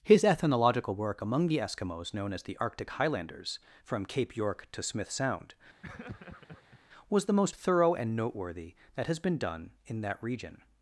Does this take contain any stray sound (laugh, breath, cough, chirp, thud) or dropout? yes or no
yes